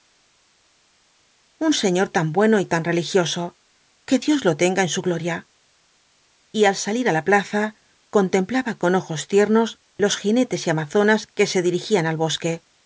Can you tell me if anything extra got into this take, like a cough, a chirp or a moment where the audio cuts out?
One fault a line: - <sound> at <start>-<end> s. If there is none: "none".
none